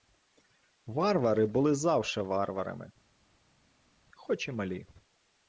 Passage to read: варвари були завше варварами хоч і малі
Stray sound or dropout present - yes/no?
no